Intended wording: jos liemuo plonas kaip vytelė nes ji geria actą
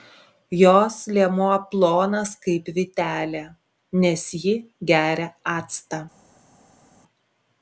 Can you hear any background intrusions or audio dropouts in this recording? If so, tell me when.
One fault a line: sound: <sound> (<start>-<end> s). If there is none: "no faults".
no faults